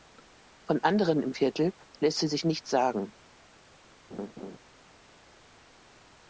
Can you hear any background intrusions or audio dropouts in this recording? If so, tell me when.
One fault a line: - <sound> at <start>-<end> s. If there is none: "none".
- laugh at 4.1-4.6 s